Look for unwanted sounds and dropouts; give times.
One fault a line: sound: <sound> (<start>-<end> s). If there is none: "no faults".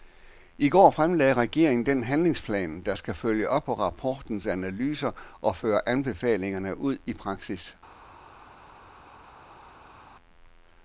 no faults